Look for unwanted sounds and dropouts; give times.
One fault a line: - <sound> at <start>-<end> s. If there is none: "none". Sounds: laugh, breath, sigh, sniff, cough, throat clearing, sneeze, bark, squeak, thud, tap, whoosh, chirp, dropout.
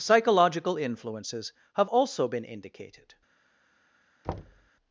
- thud at 4.2-4.7 s